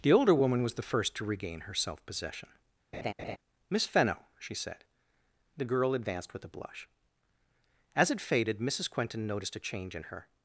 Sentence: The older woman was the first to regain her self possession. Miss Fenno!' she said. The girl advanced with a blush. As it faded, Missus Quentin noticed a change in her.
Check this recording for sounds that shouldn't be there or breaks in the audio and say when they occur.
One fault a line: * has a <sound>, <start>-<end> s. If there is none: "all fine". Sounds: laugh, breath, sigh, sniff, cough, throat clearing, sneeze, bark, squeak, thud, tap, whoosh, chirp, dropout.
* has a laugh, 2.9-3.4 s